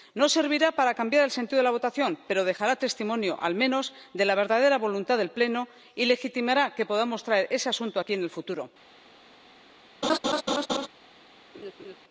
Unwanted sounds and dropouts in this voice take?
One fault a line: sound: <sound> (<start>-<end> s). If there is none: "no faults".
sound: laugh (10.0-10.9 s)
sound: laugh (11.5-12.0 s)